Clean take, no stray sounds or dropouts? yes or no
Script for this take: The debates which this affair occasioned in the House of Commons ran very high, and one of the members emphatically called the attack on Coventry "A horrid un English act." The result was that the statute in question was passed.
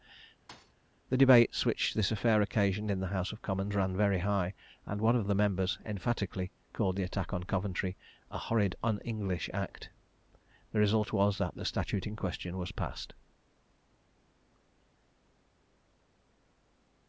no